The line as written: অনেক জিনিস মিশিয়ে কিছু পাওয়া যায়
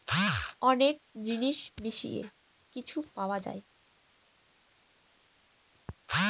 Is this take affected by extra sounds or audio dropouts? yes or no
no